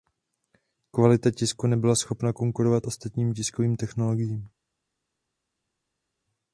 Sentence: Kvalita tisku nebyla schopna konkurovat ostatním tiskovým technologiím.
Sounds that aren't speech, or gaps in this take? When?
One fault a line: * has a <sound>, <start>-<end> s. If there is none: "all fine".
all fine